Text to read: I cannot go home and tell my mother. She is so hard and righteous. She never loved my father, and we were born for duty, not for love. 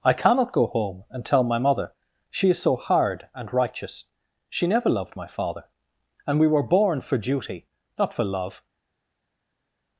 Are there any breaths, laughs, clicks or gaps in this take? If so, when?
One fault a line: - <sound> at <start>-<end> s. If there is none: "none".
none